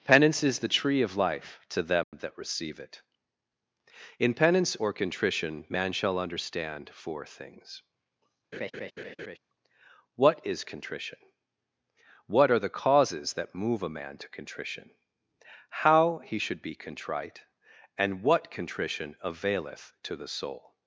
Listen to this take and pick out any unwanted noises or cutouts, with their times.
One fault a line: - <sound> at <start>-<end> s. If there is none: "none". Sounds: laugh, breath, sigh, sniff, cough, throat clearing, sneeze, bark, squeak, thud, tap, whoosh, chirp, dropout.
- dropout at 2.0-2.1 s
- laugh at 8.5-9.4 s